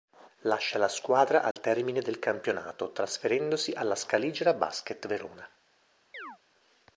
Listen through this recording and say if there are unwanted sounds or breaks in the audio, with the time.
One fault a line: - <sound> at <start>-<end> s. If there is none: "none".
- dropout at 1.5-1.6 s
- chirp at 6.1-6.4 s